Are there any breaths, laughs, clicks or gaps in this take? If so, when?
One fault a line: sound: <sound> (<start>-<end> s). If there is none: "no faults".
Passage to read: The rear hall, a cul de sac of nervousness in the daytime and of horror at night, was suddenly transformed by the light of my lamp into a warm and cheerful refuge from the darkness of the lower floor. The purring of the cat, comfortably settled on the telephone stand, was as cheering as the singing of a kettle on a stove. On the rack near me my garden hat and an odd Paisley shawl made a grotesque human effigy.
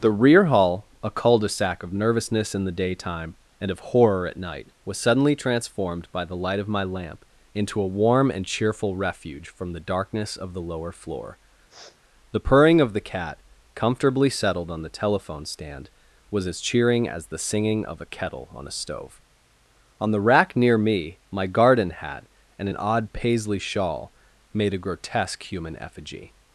sound: sniff (11.7-12.0 s)